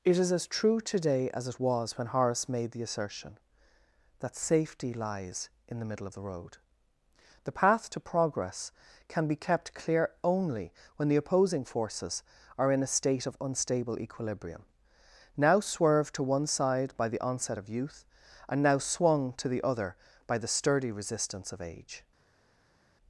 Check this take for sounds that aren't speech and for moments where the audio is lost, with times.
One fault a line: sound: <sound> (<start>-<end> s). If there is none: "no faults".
no faults